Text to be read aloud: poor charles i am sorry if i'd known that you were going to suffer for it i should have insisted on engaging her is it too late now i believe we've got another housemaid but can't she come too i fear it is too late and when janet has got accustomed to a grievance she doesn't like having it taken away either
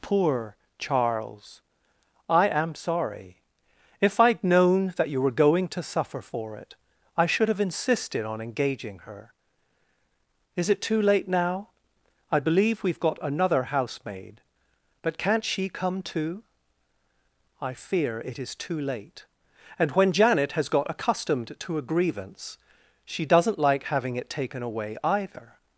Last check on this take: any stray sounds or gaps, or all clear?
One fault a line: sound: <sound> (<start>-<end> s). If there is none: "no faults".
no faults